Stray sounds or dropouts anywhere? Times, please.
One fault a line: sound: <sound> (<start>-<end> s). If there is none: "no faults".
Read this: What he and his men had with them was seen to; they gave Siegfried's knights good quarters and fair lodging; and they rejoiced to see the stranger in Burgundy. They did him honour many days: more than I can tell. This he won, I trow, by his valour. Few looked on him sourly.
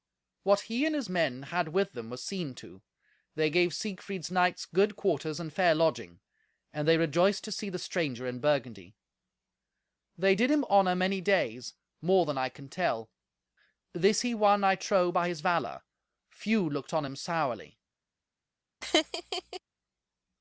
sound: laugh (18.8-19.6 s)